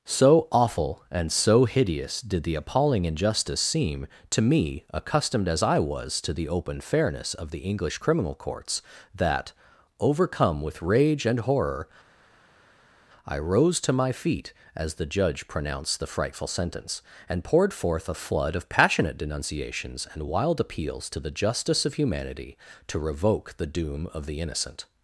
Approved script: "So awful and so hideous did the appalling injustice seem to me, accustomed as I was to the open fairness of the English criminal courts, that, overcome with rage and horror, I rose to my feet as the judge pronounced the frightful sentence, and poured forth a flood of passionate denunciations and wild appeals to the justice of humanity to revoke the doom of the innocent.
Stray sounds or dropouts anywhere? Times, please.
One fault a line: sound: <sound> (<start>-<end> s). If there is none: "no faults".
no faults